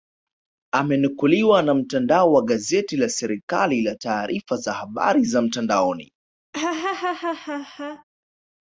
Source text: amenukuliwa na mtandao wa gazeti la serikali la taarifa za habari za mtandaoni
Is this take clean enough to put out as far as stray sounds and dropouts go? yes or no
no